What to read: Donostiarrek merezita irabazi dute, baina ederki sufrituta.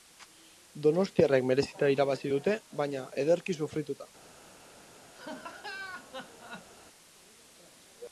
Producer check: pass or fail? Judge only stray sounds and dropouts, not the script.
fail